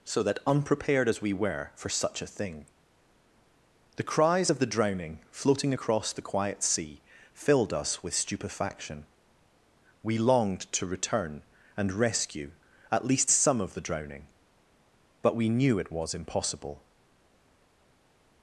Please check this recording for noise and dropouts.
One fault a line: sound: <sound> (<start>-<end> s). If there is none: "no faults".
no faults